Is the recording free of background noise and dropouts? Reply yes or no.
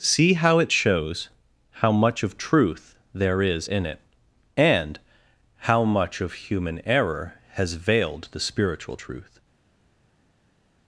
yes